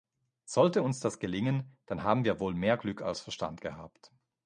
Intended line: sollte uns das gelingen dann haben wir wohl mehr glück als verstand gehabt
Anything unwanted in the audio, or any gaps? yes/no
no